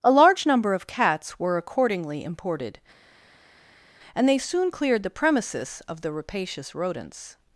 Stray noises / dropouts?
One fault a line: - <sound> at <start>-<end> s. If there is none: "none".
none